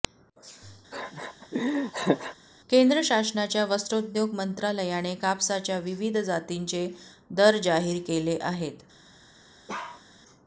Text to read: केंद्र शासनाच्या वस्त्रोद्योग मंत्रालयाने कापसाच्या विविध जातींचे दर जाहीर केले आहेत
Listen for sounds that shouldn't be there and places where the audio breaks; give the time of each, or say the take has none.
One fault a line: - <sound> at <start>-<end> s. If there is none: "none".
- laugh at 0.9-2.4 s
- bark at 9.7-10.0 s